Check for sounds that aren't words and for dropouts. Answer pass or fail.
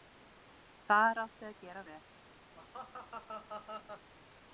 fail